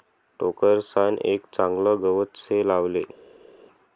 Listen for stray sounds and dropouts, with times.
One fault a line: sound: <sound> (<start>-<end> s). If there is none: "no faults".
no faults